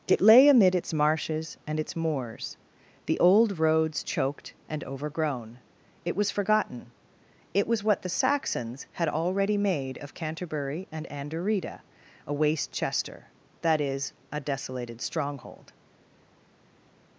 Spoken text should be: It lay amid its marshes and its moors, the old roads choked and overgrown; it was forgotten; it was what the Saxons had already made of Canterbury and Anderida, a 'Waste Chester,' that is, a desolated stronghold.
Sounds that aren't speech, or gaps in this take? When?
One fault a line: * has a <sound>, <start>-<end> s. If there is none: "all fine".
all fine